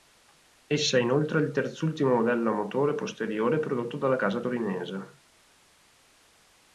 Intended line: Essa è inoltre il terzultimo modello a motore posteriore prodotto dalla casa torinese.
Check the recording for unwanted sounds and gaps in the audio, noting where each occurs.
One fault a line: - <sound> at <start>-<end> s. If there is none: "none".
none